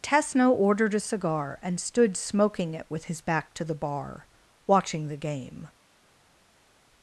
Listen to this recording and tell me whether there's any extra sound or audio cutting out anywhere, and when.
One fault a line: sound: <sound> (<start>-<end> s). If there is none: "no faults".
no faults